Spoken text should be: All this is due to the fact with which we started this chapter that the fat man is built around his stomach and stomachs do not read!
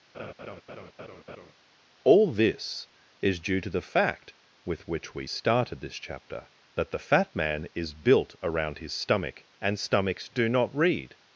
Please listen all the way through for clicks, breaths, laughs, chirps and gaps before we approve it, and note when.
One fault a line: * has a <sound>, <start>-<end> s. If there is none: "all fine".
* has a laugh, 0.1-1.5 s